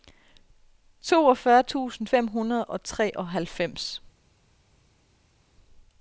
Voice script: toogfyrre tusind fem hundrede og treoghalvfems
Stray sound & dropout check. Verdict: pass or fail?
pass